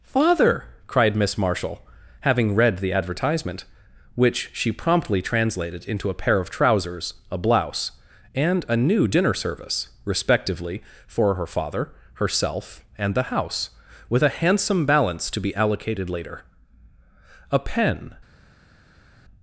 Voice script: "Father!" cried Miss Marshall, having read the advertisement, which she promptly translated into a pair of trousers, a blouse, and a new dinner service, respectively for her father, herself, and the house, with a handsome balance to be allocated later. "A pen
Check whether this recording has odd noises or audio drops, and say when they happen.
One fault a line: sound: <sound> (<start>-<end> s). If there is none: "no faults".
no faults